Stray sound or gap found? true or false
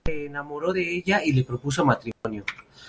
true